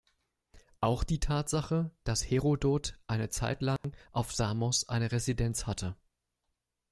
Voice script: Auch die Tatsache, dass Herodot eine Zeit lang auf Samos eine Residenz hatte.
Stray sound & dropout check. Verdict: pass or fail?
fail